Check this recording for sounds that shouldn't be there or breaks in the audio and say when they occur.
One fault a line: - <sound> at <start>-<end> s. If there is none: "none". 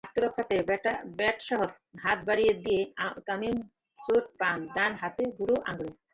none